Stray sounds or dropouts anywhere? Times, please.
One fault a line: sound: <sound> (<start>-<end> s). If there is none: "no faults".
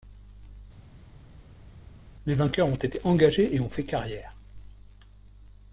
no faults